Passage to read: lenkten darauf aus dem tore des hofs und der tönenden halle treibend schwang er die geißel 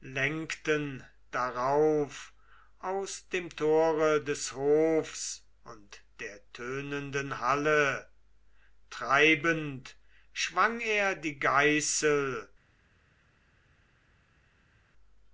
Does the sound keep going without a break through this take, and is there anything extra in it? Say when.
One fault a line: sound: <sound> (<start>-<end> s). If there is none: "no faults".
no faults